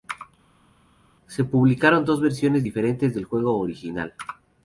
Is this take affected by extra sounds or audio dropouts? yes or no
no